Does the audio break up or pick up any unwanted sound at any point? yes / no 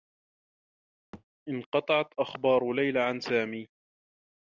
yes